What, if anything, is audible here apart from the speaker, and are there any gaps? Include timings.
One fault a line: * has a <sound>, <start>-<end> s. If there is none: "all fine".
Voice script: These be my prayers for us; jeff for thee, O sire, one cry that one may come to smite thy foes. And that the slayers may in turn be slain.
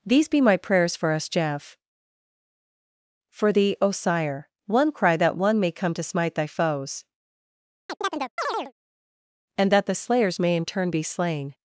* has a chirp, 7.9-8.7 s